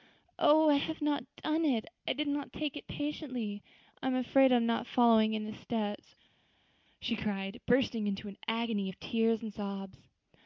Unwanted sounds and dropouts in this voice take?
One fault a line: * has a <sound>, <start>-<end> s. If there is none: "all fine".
all fine